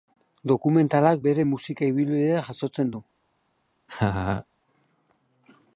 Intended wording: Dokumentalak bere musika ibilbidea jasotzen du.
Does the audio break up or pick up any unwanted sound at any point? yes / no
yes